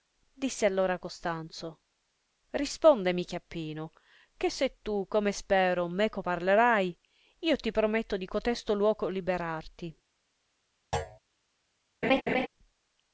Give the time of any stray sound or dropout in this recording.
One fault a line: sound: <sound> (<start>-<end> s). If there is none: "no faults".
sound: thud (10.9-11.2 s)
sound: laugh (12.0-12.5 s)